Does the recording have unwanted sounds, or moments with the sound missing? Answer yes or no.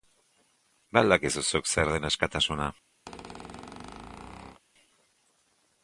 yes